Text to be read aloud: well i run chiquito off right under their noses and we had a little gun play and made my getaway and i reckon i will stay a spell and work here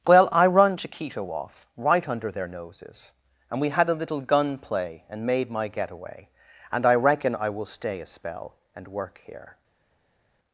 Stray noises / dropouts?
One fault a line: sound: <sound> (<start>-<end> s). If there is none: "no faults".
no faults